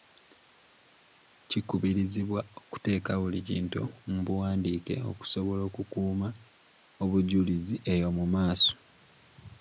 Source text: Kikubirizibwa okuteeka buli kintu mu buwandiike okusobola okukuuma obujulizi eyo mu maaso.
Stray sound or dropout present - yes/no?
no